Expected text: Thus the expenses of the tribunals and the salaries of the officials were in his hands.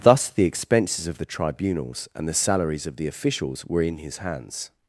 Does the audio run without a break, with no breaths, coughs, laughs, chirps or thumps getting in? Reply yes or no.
yes